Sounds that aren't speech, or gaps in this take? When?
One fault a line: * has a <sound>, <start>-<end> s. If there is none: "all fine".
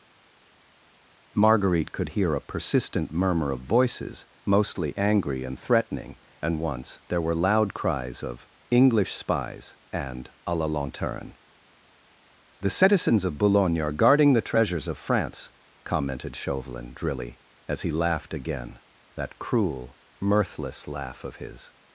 all fine